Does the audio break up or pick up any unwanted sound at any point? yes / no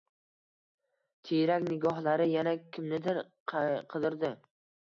no